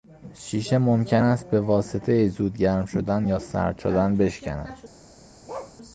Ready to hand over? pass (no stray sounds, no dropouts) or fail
fail